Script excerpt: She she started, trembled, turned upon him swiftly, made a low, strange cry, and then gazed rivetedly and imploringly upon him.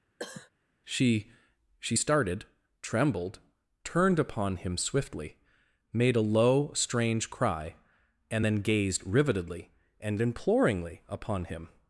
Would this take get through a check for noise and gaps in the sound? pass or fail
fail